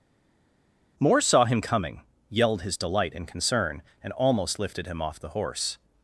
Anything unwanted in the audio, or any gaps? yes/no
no